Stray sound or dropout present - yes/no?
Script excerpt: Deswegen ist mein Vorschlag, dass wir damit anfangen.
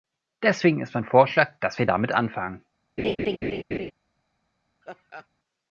yes